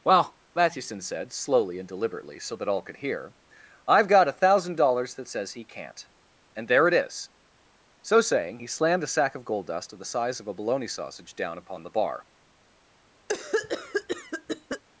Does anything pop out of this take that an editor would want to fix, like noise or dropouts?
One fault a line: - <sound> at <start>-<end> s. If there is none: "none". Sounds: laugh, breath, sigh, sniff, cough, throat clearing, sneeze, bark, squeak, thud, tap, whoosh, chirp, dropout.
- cough at 13.3-14.8 s